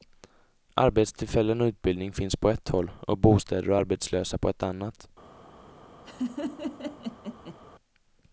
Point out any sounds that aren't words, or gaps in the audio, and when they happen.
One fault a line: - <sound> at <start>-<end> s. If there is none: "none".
- laugh at 6.0-7.6 s